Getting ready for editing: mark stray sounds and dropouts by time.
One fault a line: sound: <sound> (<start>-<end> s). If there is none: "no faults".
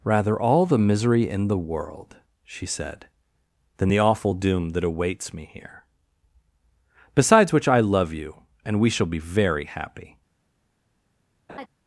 sound: laugh (11.5-11.7 s)